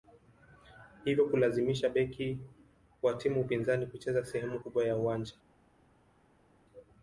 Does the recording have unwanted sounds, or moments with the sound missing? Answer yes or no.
no